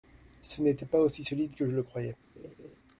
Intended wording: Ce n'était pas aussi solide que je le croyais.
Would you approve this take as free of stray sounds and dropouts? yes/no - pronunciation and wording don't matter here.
no